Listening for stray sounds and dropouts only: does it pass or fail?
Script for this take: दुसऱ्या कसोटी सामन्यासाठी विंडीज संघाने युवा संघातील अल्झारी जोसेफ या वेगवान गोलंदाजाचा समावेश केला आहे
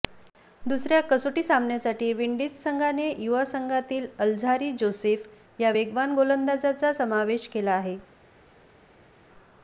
pass